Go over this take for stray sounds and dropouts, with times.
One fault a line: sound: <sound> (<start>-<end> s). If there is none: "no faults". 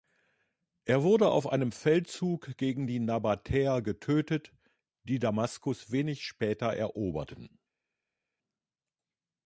no faults